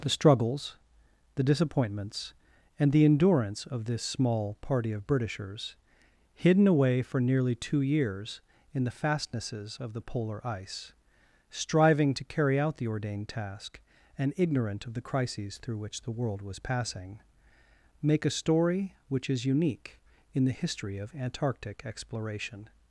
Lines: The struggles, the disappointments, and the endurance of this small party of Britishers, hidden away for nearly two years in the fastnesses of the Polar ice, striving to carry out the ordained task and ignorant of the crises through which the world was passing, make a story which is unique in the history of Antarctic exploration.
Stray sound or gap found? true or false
false